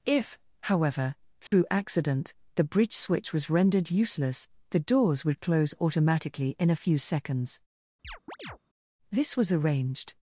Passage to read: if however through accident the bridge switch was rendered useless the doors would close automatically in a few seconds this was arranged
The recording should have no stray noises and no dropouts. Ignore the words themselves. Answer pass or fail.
fail